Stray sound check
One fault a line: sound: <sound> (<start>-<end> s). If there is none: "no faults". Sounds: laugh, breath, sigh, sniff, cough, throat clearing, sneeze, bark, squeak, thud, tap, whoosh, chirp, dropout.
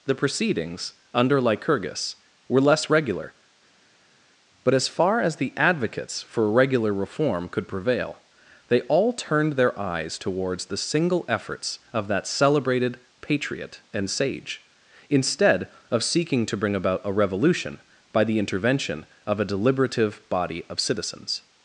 no faults